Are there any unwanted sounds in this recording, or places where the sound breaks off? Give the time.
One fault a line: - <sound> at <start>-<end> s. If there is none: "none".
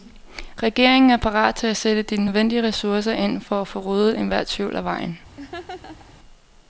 - laugh at 5.4-6.1 s